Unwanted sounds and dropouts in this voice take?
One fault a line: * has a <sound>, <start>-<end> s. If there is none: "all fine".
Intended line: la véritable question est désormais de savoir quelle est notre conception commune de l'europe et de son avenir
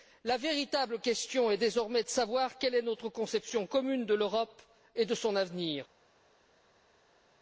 all fine